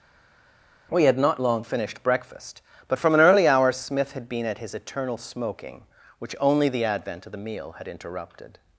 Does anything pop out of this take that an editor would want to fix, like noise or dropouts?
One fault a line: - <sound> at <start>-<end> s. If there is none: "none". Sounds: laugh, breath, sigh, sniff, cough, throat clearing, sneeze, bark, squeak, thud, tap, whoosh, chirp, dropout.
none